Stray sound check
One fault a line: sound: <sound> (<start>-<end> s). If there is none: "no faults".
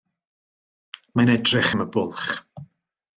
no faults